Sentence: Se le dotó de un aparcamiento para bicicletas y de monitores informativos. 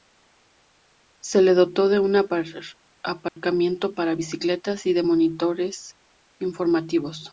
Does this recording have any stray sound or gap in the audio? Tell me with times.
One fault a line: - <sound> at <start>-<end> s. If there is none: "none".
- dropout at 3.3-3.4 s